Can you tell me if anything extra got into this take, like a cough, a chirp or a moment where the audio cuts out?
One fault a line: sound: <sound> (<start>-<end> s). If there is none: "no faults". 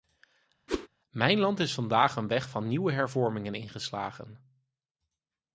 sound: whoosh (0.7-0.9 s)